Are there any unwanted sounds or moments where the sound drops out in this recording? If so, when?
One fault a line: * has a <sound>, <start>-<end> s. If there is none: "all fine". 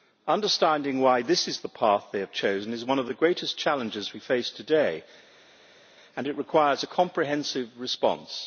all fine